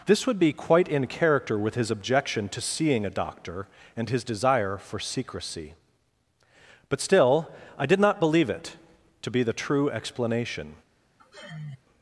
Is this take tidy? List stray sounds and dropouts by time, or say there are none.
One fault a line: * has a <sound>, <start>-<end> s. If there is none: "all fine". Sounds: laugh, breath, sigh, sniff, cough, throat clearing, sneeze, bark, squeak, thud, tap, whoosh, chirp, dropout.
* has a sigh, 11.2-11.8 s